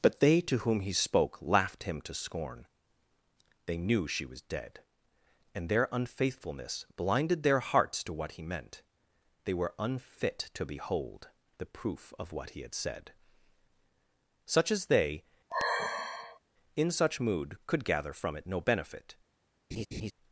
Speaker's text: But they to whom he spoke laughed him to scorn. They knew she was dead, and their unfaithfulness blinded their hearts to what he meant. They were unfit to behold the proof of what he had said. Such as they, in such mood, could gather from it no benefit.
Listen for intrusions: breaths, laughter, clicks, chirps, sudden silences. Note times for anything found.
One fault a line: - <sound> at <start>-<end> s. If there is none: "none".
- sigh at 15.5-16.4 s
- laugh at 19.7-20.1 s